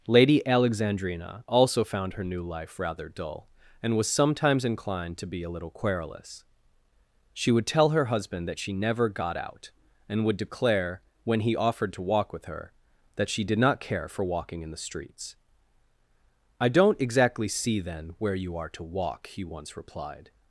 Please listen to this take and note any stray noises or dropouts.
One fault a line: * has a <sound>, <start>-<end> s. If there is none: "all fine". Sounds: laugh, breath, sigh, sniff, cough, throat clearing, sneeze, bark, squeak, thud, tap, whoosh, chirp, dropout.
all fine